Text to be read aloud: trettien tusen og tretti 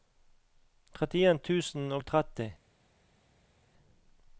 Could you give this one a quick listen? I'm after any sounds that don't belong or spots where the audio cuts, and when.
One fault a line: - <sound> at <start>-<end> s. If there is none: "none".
none